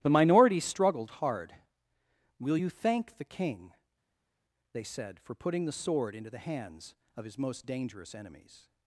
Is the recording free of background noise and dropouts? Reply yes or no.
yes